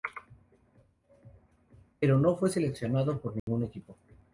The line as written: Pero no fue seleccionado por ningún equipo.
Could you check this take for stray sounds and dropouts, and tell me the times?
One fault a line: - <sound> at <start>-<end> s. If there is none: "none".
- dropout at 3.4-3.5 s